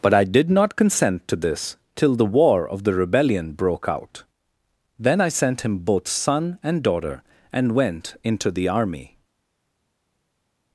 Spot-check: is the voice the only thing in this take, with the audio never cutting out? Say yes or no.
yes